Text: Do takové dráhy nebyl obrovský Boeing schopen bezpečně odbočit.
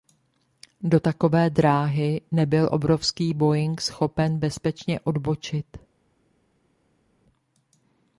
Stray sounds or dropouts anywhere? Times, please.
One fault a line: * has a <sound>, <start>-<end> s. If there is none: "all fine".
all fine